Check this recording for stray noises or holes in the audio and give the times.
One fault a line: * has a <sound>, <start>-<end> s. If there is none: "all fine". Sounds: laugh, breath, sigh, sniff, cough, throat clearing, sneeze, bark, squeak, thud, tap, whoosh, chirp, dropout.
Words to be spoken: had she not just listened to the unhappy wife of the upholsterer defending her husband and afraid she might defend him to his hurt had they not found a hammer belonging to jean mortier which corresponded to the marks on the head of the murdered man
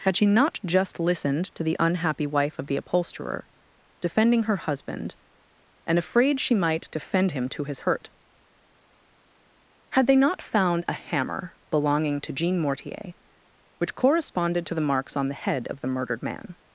all fine